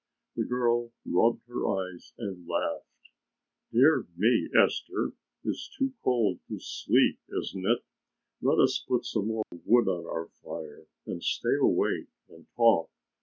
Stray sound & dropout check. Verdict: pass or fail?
fail